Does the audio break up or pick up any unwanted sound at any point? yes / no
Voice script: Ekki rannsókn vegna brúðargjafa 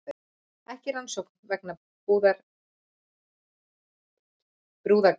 no